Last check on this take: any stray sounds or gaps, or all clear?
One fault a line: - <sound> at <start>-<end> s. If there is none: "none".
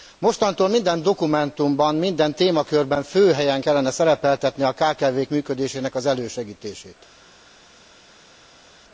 none